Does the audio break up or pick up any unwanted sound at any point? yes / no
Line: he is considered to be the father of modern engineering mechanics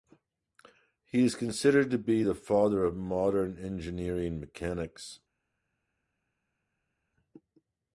no